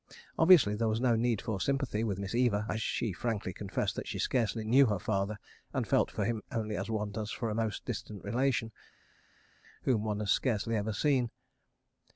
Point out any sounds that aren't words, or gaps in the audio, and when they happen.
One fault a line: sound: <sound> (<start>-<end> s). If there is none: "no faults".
no faults